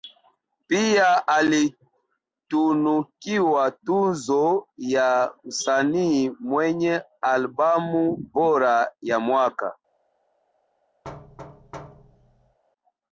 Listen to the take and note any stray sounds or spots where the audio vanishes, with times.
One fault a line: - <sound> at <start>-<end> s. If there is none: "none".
- thud at 11.0-12.6 s